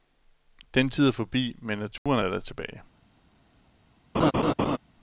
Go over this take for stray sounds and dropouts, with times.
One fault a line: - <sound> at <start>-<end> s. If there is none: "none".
- dropout at 2.0-2.1 s
- laugh at 4.1-4.8 s